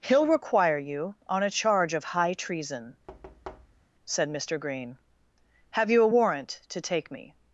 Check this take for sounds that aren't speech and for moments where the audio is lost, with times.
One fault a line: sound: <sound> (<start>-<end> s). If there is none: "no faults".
sound: thud (3.1-3.9 s)